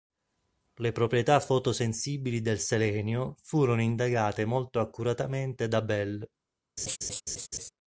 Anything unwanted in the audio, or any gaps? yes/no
yes